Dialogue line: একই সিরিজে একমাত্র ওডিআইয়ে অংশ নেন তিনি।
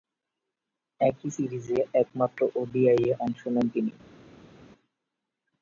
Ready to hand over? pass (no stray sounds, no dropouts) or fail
pass